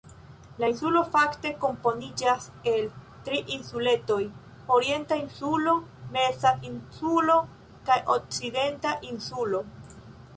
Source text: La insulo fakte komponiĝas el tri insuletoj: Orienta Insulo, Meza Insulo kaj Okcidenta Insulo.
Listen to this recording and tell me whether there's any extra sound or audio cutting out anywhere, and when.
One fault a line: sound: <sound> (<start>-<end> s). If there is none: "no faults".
no faults